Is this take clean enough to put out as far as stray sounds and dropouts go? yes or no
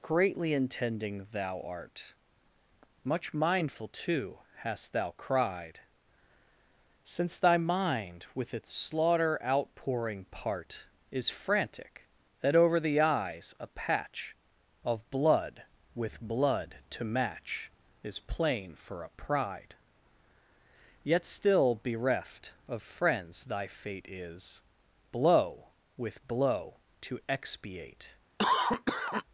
no